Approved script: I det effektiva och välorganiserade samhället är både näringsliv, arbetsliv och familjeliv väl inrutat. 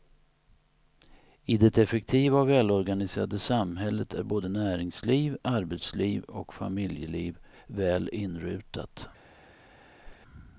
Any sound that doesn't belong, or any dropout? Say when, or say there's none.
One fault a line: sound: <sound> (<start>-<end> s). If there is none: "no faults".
sound: whoosh (10.0-10.2 s)